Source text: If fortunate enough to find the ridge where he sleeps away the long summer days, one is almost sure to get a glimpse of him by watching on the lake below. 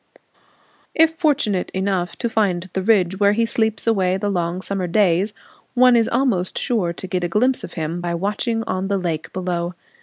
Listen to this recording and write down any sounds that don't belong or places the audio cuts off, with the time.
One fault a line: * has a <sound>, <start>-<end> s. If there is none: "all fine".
all fine